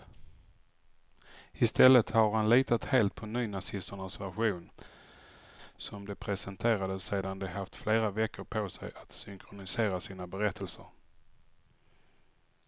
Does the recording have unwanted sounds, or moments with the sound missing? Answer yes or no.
no